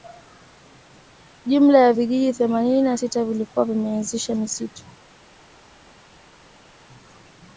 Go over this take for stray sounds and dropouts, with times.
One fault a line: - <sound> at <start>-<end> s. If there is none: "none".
none